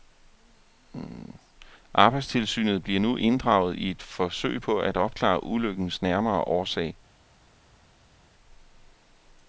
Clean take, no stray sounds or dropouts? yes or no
yes